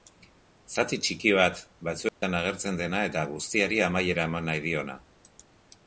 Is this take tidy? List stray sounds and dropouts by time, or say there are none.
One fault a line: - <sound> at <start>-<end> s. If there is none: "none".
- dropout at 2.1-2.2 s